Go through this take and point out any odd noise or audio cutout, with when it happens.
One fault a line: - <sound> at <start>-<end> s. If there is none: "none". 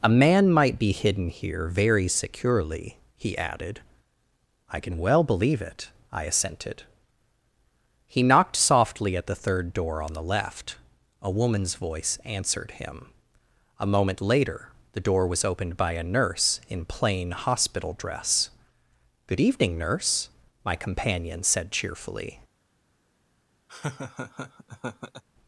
- laugh at 23.7-25.2 s